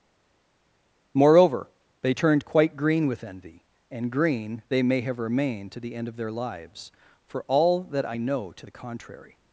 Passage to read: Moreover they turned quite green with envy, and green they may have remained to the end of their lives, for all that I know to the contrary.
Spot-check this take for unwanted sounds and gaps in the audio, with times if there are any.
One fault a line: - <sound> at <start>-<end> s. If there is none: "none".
none